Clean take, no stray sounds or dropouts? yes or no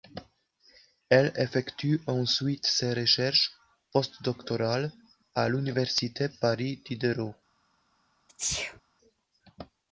no